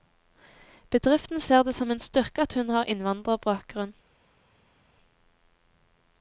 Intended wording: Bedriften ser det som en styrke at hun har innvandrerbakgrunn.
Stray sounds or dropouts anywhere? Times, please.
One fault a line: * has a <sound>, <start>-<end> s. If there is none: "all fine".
all fine